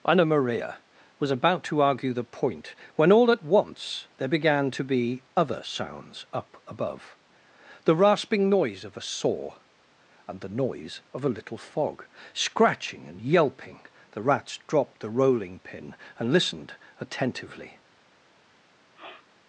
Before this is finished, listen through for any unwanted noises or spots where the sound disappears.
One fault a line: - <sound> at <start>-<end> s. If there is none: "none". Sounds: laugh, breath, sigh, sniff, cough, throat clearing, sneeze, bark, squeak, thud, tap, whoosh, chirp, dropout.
- sniff at 18.9-19.3 s